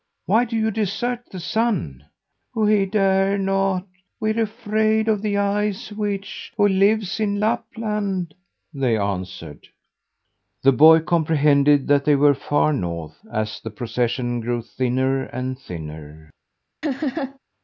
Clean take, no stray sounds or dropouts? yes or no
no